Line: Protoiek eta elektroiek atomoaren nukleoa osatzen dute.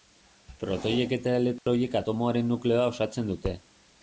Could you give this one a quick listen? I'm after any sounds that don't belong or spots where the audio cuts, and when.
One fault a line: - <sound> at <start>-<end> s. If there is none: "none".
- dropout at 1.6-1.7 s